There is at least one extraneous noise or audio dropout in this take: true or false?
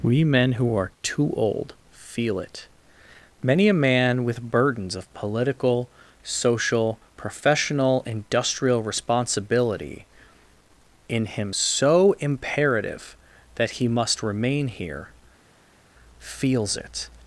false